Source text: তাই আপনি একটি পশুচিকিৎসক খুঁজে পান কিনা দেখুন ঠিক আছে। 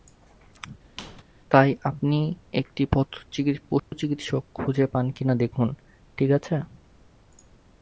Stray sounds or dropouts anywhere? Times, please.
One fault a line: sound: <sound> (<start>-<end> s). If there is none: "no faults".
sound: squeak (1.0-1.2 s)
sound: dropout (3.8-3.9 s)